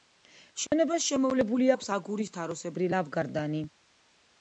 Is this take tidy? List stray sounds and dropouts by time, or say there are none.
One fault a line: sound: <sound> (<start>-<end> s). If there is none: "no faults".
sound: dropout (0.7-0.7 s)